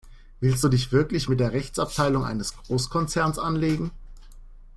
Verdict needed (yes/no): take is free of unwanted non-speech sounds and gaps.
yes